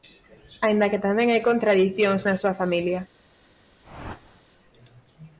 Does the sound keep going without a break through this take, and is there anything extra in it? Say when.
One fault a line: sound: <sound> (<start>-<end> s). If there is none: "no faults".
sound: whoosh (3.8-4.4 s)